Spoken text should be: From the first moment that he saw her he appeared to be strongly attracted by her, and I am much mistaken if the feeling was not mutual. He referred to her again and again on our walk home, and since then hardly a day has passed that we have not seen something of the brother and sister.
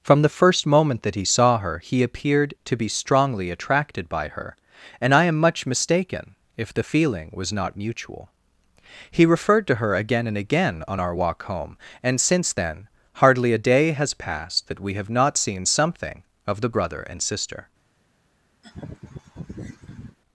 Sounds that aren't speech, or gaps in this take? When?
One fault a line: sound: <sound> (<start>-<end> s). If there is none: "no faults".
sound: laugh (18.6-20.2 s)